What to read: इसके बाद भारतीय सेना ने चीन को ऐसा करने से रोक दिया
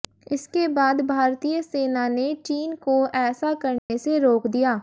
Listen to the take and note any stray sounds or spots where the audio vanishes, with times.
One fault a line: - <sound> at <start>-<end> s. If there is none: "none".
- dropout at 3.8-3.9 s